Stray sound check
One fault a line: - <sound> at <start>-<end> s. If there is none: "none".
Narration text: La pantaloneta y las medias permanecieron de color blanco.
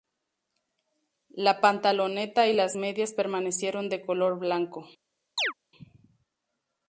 - chirp at 5.4-5.5 s